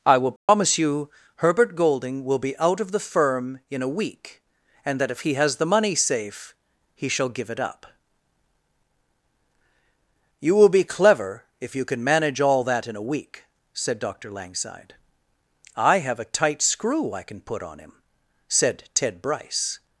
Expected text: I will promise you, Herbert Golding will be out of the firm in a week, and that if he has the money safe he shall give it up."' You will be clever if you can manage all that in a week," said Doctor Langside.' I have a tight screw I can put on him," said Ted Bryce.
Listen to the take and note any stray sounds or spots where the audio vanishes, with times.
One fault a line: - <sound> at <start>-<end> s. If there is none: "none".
- dropout at 0.4-0.5 s